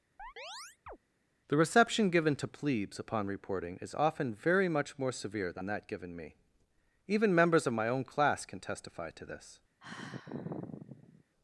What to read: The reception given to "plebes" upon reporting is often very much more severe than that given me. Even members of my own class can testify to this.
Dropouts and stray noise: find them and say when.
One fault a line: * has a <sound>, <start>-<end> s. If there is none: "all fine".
* has a chirp, 0.2-1.0 s
* has a sigh, 9.8-11.2 s